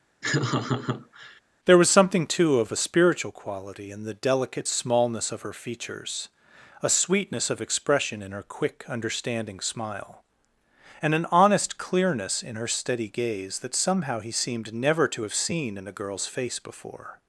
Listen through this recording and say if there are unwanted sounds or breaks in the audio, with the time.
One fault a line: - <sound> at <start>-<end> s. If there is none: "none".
- laugh at 0.2-1.4 s